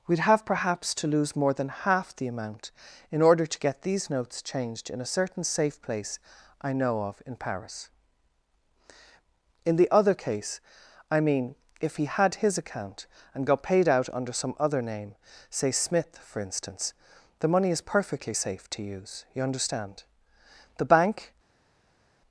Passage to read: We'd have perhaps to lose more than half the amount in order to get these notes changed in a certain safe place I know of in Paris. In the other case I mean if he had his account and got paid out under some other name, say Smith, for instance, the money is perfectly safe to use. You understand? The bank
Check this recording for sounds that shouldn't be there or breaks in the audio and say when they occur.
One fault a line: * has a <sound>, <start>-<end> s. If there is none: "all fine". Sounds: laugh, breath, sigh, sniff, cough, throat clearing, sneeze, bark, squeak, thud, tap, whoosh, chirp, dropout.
all fine